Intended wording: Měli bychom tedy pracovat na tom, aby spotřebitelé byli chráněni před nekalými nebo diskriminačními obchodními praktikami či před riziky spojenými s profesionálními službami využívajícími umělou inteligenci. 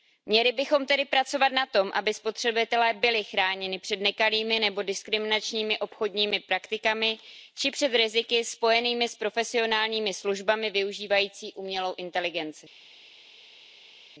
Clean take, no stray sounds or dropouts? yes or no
yes